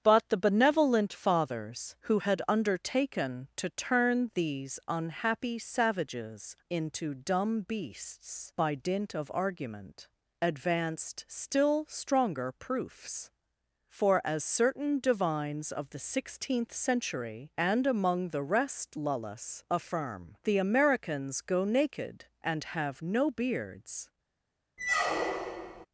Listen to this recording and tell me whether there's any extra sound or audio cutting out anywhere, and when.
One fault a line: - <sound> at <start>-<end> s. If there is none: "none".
- squeak at 24.8-25.9 s